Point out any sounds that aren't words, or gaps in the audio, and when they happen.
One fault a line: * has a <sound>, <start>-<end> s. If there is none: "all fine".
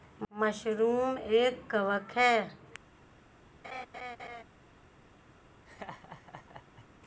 * has a laugh, 3.6-4.4 s
* has a laugh, 5.7-6.9 s